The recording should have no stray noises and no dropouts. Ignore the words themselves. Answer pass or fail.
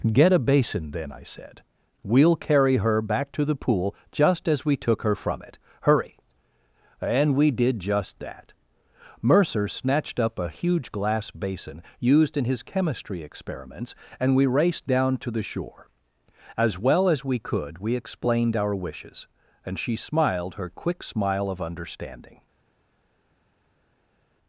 pass